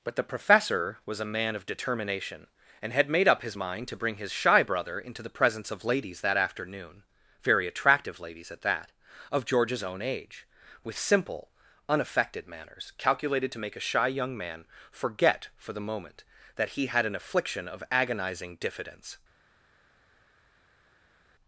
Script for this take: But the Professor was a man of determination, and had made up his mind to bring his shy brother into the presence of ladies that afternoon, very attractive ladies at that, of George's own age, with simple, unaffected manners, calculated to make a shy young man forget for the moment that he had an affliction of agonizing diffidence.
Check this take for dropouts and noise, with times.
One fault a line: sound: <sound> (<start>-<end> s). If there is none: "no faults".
no faults